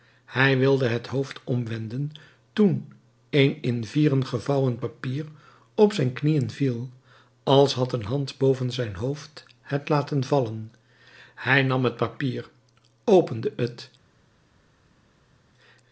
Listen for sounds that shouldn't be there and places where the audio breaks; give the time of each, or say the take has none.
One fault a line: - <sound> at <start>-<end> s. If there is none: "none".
none